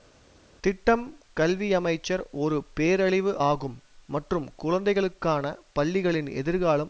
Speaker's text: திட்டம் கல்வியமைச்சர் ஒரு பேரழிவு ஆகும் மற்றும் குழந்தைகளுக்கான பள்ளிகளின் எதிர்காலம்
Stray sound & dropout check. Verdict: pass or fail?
pass